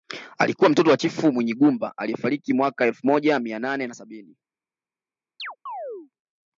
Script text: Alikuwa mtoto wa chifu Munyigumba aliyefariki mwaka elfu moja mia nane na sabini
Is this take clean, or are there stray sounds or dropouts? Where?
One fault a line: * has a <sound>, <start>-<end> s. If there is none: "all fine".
* has a chirp, 5.4-6.1 s